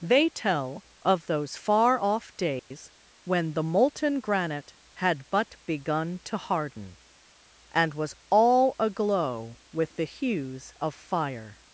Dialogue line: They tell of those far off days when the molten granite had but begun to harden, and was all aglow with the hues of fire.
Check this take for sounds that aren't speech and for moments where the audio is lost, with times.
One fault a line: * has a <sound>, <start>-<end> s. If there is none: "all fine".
* has a dropout, 2.6-2.7 s